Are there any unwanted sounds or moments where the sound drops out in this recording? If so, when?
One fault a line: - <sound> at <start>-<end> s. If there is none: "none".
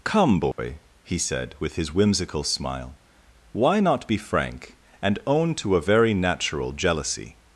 - dropout at 0.5-0.6 s